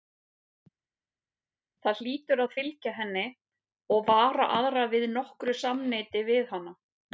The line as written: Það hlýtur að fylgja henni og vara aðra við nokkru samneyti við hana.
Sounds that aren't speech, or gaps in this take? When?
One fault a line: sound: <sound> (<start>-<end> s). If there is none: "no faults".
no faults